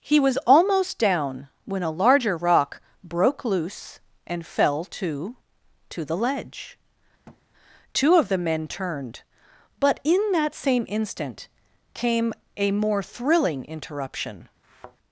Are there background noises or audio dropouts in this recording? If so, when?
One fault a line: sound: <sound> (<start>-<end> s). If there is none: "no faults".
sound: thud (7.3-7.4 s)
sound: thud (14.6-15.0 s)